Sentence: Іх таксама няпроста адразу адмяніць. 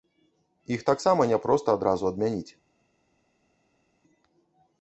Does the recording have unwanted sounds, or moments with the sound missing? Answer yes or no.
no